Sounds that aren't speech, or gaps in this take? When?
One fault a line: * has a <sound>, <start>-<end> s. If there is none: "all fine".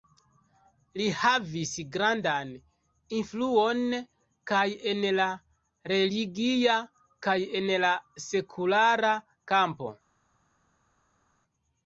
all fine